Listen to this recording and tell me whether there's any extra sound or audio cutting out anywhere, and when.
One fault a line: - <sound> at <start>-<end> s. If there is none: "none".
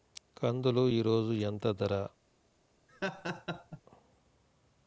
- laugh at 2.9-3.8 s